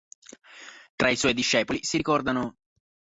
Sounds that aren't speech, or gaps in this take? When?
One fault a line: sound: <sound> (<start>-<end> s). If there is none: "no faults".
no faults